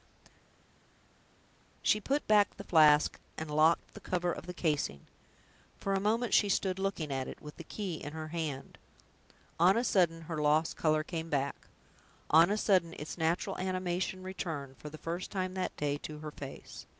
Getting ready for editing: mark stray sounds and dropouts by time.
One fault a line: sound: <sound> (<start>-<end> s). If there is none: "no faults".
no faults